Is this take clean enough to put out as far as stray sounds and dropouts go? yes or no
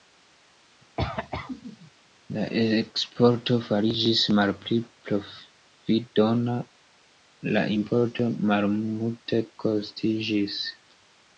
no